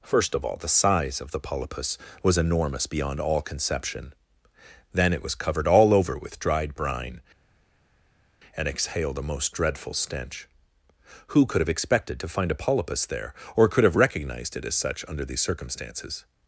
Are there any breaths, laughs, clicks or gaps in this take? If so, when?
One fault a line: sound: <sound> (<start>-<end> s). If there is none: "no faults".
no faults